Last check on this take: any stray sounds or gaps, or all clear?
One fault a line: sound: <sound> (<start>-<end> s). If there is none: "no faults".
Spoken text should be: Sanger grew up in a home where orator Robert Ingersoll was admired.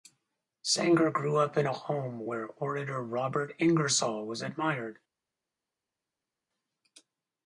no faults